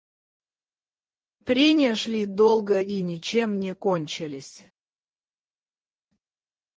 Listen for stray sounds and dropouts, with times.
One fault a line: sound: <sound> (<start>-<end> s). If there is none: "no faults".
no faults